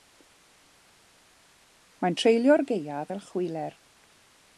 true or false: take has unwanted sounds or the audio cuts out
false